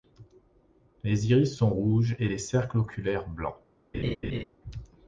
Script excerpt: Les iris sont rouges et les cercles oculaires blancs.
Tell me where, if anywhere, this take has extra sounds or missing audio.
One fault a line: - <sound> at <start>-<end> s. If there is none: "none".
- laugh at 3.9-4.4 s